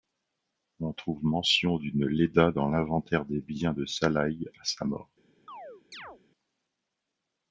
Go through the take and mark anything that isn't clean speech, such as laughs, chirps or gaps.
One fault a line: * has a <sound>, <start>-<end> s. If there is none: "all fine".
* has a chirp, 5.5-6.2 s